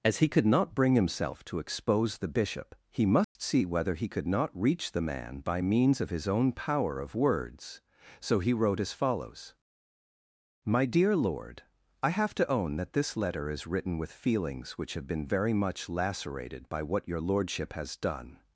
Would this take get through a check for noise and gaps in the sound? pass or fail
fail